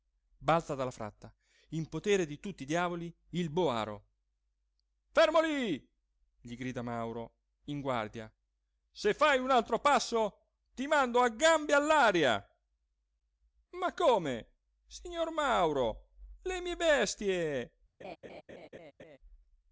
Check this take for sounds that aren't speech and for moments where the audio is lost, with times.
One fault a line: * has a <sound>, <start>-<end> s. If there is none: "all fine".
* has a laugh, 18.0-19.2 s